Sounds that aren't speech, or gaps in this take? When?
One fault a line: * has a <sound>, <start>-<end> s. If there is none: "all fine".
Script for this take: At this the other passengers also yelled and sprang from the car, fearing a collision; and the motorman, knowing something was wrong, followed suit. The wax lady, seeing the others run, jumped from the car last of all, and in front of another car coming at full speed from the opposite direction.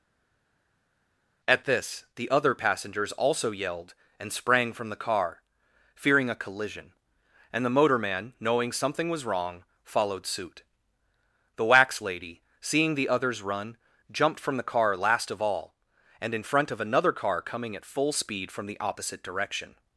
all fine